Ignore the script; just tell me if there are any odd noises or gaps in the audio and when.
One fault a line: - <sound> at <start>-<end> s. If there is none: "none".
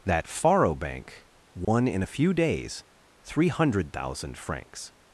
- dropout at 1.6-1.7 s